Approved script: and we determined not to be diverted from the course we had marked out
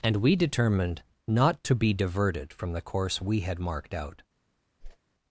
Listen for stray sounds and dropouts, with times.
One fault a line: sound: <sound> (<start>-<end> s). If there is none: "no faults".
sound: whoosh (4.8-5.0 s)